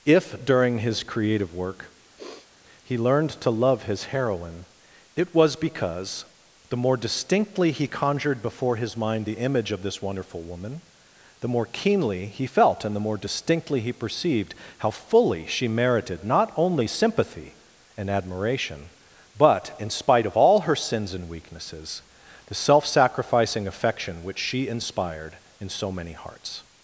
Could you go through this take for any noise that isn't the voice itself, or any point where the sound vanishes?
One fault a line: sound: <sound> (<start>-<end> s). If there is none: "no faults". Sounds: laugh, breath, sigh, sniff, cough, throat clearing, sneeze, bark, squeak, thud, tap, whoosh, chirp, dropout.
sound: sniff (2.2-2.5 s)